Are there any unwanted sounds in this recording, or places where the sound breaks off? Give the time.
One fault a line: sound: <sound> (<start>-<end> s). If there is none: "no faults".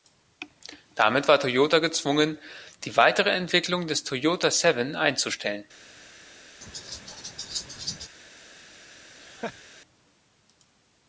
sound: laugh (6.6-8.1 s)
sound: laugh (9.2-9.6 s)